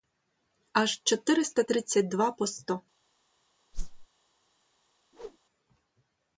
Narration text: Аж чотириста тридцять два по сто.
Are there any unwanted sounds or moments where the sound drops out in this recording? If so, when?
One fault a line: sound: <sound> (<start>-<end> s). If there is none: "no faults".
sound: whoosh (3.7-4.1 s)
sound: whoosh (5.1-5.4 s)